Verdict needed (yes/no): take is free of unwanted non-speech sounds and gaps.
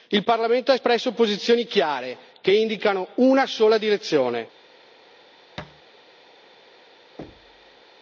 no